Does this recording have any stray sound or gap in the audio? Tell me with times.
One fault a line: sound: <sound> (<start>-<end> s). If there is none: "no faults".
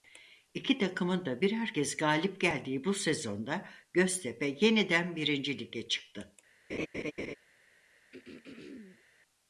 sound: laugh (6.7-7.4 s)
sound: throat clearing (8.1-9.0 s)